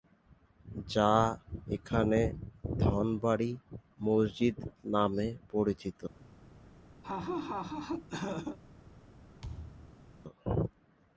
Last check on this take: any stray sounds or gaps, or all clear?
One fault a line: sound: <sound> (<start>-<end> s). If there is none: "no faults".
sound: laugh (7.0-8.6 s)
sound: thud (9.4-10.1 s)